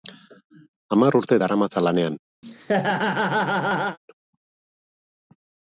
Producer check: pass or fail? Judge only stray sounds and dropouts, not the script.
fail